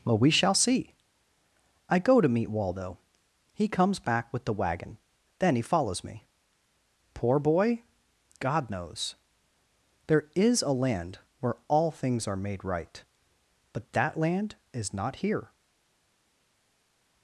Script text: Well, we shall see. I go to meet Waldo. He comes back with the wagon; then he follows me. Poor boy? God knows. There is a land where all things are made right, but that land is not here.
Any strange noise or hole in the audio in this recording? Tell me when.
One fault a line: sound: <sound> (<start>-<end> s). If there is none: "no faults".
no faults